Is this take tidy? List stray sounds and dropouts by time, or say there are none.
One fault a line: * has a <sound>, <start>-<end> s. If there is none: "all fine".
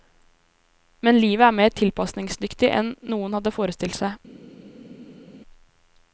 all fine